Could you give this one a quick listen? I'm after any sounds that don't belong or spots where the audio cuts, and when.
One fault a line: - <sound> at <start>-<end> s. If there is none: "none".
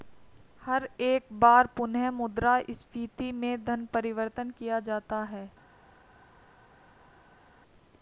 none